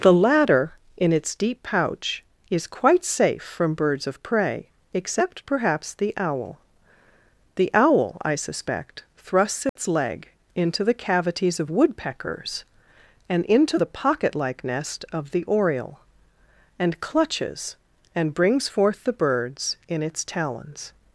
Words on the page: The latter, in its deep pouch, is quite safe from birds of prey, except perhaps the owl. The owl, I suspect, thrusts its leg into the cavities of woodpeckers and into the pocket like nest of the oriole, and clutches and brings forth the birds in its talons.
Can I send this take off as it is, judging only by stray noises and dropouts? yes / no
no